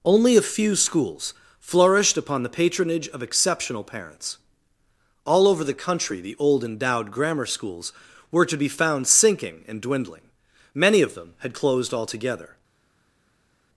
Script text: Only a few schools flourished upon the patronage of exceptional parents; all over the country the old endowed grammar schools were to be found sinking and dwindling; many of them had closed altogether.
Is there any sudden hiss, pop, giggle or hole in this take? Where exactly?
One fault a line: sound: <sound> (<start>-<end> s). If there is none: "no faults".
no faults